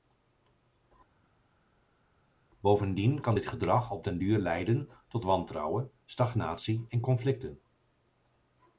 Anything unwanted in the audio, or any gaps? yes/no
no